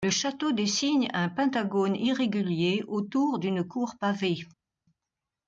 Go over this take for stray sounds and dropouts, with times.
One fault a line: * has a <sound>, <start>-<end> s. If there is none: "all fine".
all fine